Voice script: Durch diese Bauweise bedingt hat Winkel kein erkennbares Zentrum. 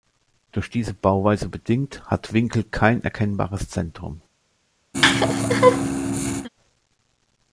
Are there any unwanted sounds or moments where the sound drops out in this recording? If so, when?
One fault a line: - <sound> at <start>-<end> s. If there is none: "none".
- laugh at 4.9-6.5 s